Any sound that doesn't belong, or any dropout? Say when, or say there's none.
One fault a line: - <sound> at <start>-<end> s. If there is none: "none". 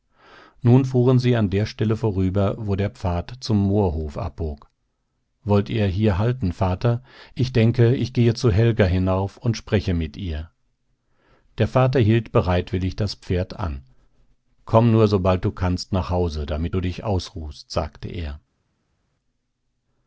none